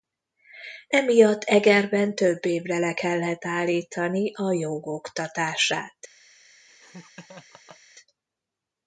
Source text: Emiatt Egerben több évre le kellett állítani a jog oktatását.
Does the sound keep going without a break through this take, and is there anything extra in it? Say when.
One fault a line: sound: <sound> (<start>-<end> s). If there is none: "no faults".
sound: laugh (6.7-7.8 s)